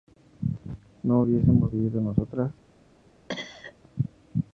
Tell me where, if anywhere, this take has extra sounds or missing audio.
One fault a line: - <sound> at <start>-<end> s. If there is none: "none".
- cough at 3.3-3.7 s